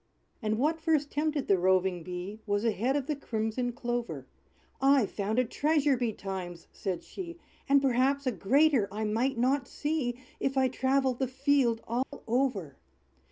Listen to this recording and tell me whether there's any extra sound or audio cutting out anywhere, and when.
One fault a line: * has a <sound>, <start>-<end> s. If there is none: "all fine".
* has a dropout, 12.0-12.1 s